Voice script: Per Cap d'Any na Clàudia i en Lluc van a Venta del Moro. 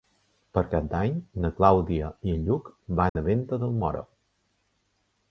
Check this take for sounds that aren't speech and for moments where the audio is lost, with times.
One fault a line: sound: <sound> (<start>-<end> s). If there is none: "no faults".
sound: dropout (3.1-3.2 s)